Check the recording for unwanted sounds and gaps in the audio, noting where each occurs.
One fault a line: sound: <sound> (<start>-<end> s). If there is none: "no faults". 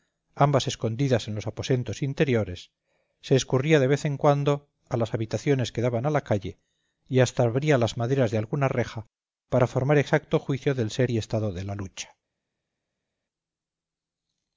no faults